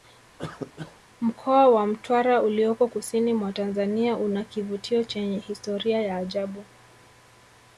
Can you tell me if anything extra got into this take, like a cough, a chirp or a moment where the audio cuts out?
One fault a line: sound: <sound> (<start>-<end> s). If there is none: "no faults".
sound: cough (0.4-1.0 s)